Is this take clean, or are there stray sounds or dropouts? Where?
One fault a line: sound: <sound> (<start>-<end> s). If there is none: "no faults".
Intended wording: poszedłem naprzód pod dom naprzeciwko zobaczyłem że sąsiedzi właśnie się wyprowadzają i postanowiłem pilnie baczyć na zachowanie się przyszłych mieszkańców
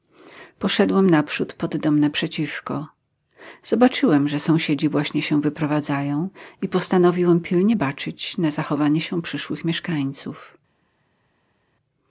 no faults